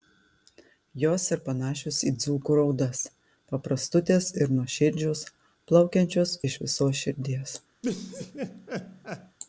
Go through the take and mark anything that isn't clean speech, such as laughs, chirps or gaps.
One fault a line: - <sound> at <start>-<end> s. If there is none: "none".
- laugh at 7.8-9.4 s